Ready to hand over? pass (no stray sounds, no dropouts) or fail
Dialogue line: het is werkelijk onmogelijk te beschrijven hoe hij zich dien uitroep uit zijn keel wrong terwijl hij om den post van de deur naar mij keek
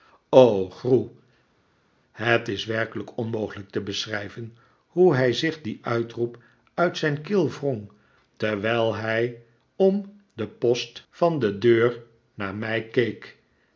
pass